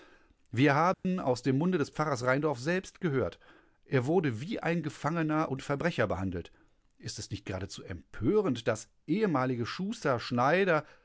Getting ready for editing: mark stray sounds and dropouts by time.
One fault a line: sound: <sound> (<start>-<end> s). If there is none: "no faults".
sound: dropout (0.9-1.0 s)